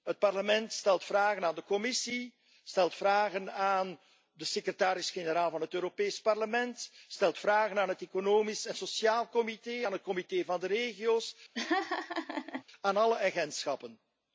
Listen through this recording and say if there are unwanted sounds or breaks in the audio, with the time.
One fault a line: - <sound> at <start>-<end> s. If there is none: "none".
- laugh at 11.5-12.6 s